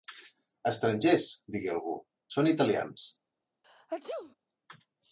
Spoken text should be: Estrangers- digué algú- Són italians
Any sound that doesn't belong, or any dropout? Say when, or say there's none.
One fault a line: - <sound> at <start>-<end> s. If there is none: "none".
- sneeze at 3.6-4.4 s